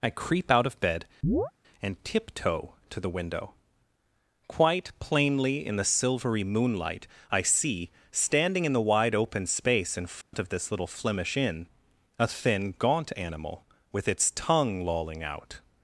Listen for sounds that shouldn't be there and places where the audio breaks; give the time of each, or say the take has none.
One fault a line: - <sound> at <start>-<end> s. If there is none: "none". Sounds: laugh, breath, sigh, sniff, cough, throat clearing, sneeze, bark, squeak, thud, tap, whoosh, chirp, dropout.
- chirp at 1.2-1.5 s
- dropout at 10.2-10.3 s